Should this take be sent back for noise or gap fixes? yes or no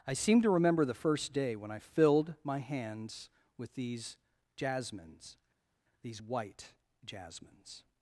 no